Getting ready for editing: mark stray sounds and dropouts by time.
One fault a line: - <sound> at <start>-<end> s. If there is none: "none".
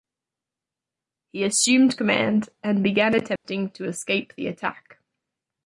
- dropout at 3.4-3.4 s